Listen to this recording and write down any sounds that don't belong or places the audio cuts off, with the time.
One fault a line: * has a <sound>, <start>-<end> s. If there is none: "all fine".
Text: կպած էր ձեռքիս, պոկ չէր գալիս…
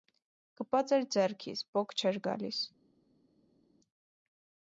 all fine